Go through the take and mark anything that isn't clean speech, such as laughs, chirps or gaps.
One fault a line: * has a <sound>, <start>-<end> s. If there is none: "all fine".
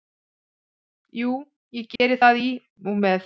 * has a dropout, 2.0-2.0 s